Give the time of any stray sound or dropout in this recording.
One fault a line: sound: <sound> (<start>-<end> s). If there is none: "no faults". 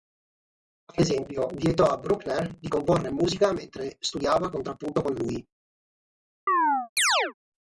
sound: chirp (6.5-7.3 s)